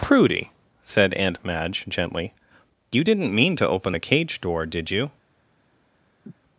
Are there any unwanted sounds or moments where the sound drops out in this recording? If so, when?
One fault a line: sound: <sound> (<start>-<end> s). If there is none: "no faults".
sound: sniff (6.2-6.4 s)